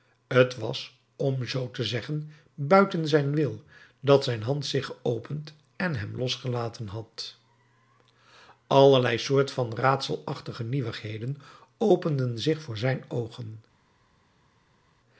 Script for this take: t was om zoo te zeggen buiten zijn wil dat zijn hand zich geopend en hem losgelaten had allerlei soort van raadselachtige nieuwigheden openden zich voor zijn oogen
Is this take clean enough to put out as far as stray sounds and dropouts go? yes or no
yes